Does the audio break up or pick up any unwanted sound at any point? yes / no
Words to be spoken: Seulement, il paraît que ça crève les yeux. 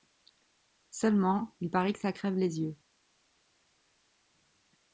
no